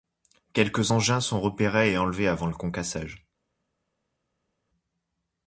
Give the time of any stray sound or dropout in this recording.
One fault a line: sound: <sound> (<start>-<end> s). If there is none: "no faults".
no faults